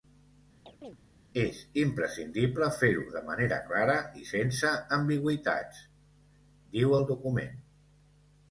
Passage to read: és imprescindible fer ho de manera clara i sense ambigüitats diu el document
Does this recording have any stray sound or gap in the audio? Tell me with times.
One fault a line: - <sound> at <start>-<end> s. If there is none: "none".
- chirp at 0.7-1.0 s